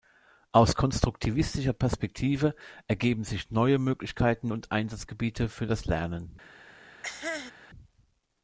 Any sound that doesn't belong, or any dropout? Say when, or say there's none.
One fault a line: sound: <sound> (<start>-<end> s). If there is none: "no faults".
sound: cough (7.0-7.5 s)